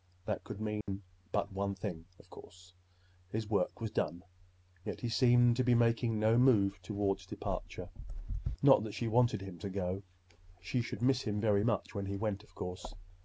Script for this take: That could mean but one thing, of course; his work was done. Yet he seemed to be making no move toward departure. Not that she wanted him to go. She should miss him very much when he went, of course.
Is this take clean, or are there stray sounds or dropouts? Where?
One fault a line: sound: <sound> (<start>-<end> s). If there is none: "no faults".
sound: dropout (0.8-0.9 s)